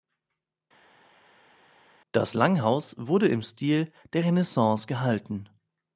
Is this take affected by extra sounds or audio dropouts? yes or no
no